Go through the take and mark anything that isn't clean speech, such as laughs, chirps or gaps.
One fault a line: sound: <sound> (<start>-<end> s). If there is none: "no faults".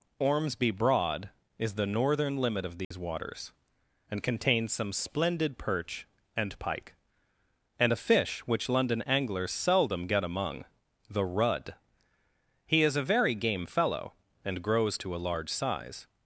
sound: dropout (2.8-2.9 s)